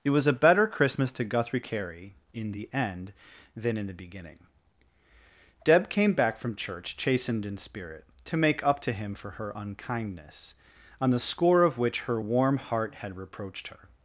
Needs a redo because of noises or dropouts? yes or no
no